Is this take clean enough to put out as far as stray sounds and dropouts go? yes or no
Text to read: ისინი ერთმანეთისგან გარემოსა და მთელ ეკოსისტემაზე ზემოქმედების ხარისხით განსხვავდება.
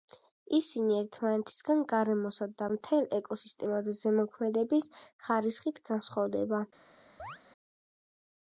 no